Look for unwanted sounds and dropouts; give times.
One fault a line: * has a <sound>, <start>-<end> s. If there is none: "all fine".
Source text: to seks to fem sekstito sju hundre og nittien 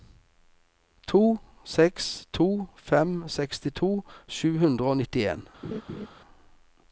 * has a laugh, 5.6-6.1 s